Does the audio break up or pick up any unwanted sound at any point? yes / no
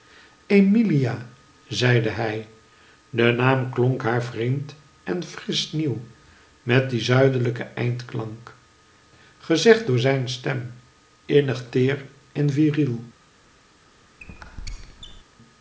yes